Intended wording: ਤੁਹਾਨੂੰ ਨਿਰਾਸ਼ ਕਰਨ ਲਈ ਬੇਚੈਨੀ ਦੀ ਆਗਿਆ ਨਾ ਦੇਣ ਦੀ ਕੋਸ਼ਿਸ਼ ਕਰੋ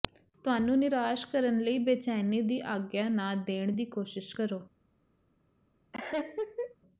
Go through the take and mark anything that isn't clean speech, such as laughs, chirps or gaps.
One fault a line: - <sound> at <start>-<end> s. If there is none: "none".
- laugh at 5.9-6.8 s